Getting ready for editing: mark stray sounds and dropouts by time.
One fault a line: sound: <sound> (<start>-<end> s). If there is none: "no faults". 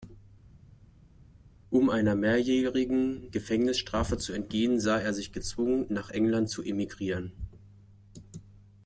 no faults